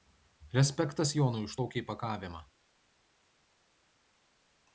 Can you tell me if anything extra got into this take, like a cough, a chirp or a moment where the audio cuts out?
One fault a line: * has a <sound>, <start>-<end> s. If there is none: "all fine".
all fine